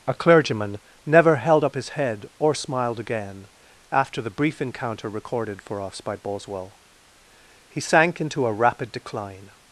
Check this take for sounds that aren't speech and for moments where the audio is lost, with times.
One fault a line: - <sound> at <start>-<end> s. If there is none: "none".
none